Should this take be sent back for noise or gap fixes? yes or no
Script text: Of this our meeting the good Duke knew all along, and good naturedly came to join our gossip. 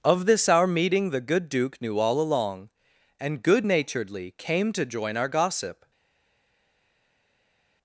no